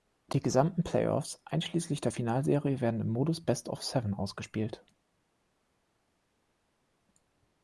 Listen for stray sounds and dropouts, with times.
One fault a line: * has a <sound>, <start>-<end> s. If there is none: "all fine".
all fine